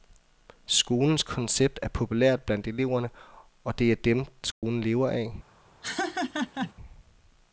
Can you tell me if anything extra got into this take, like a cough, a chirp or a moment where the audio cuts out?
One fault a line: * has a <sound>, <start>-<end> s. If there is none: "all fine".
* has a dropout, 4.5-4.6 s
* has a laugh, 5.8-6.7 s